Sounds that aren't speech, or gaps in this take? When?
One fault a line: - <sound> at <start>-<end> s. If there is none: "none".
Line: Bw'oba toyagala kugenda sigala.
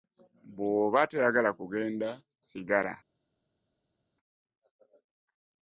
none